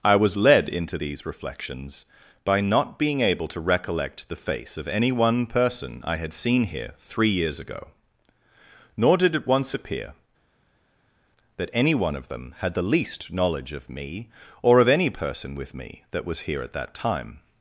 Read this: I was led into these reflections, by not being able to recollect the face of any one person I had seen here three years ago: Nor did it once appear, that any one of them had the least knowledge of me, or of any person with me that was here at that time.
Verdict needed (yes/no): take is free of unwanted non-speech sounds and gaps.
yes